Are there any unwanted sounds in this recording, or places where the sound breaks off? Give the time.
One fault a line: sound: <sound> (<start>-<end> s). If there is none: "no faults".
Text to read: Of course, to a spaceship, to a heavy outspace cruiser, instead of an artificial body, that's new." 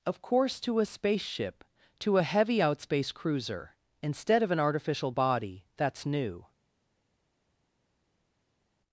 no faults